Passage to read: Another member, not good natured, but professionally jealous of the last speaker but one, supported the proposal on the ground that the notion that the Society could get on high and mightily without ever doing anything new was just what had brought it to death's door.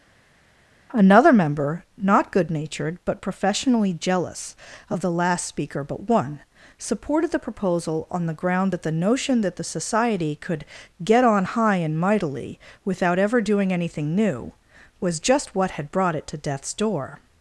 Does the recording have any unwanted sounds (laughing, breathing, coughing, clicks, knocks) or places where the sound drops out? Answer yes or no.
no